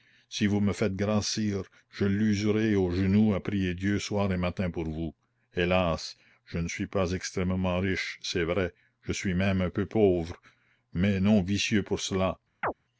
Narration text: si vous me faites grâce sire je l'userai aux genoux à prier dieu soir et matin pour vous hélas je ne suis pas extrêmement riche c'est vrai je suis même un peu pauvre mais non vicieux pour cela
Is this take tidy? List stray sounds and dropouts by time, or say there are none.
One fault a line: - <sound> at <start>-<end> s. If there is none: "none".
- chirp at 12.6-12.7 s